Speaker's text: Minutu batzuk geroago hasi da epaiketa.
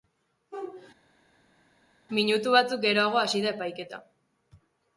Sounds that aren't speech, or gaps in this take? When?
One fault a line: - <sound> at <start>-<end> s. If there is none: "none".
none